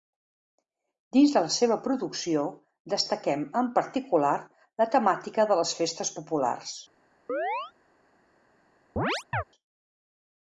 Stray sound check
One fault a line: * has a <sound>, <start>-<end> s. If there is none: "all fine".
* has a chirp, 7.3-7.7 s
* has a chirp, 9.0-9.4 s